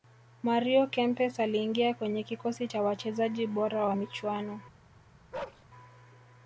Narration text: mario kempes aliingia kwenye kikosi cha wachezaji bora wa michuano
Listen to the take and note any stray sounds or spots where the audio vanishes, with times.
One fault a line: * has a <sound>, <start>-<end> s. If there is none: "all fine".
* has a bark, 5.3-5.7 s